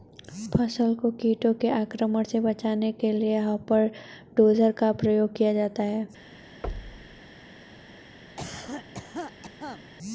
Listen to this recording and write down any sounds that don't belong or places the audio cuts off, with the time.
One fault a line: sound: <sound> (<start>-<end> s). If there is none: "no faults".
sound: thud (6.6-7.2 s)
sound: cough (8.4-9.8 s)